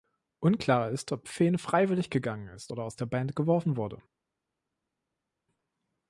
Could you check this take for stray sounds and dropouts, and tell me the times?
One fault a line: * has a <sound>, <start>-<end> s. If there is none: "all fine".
all fine